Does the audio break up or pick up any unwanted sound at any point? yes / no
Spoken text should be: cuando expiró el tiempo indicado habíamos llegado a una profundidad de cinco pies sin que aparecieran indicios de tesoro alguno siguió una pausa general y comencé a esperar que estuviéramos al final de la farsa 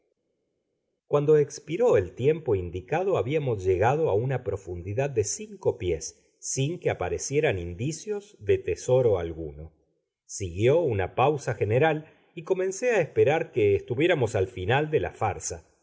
no